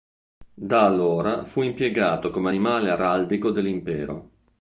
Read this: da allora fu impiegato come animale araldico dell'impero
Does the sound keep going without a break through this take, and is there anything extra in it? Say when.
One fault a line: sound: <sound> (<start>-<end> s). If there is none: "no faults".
no faults